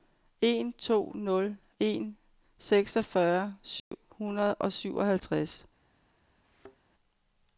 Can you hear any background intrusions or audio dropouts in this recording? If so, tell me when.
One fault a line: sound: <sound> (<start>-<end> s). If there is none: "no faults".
sound: dropout (3.8-3.9 s)
sound: thud (6.4-6.8 s)